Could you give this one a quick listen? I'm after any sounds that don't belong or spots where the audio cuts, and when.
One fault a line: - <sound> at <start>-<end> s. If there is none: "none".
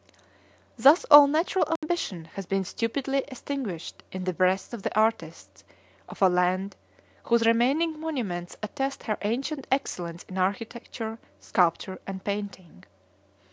- dropout at 1.8-1.8 s